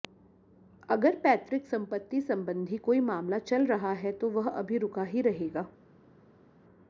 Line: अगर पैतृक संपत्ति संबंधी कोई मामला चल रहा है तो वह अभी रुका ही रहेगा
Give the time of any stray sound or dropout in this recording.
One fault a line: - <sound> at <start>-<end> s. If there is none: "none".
none